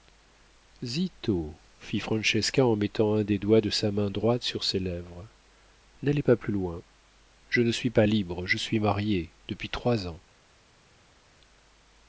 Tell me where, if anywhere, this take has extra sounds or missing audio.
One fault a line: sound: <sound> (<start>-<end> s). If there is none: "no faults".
no faults